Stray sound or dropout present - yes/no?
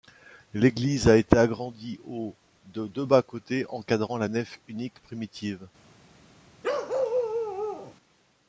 yes